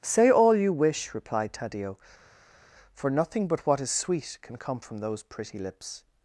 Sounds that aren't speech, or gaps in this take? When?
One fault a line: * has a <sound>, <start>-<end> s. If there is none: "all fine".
all fine